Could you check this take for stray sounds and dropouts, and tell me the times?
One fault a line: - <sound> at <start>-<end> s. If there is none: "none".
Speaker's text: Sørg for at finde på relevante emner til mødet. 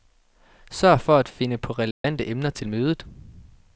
- dropout at 1.9-2.0 s